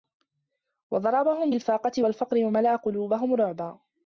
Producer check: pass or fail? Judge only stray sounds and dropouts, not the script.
pass